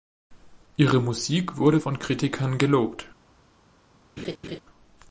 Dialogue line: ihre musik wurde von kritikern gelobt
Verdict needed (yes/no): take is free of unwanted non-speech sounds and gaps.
no